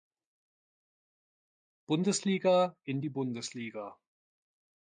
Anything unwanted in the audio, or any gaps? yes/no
no